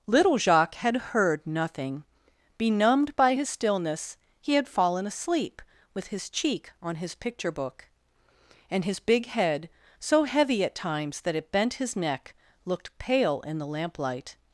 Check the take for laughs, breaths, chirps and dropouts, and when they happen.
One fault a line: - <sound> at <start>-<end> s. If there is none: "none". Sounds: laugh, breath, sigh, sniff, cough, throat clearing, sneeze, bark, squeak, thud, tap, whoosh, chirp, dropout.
none